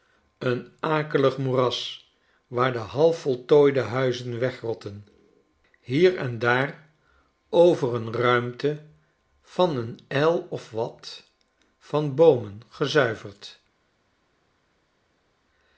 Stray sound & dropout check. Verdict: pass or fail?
pass